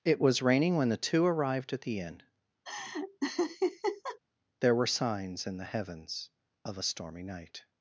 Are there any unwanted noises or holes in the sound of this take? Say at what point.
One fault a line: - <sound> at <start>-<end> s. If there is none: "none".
- laugh at 2.6-4.2 s